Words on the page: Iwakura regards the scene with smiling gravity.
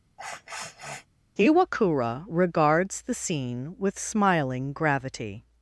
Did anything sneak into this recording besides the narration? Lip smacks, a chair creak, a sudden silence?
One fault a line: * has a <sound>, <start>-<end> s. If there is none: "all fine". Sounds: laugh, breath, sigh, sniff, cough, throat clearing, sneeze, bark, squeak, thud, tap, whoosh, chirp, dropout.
* has a sniff, 0.2-1.1 s